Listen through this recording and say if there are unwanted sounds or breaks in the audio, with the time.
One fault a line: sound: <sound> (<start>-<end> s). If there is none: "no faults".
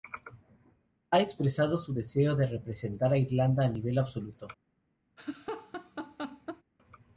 sound: laugh (5.2-6.6 s)